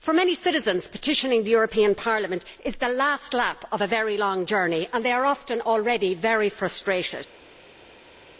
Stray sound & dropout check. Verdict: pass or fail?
pass